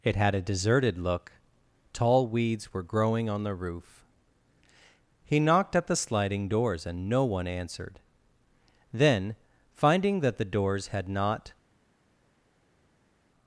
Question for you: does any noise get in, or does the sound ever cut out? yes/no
no